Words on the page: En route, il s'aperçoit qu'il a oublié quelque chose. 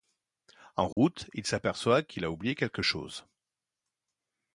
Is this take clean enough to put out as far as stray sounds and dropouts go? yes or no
no